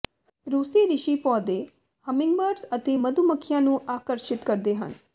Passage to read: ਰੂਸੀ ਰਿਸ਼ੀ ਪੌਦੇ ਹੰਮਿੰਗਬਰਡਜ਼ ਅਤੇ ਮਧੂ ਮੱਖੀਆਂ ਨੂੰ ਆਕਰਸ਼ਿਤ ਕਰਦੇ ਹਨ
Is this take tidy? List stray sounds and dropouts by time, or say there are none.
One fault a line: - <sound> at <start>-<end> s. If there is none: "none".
none